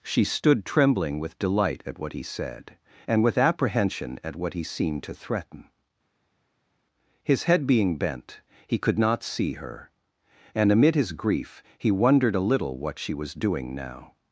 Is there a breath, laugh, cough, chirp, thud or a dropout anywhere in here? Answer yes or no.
no